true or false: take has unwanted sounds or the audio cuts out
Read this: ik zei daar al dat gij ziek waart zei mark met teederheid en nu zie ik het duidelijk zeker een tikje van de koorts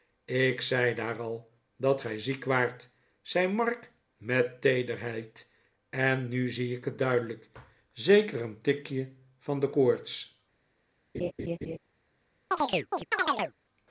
true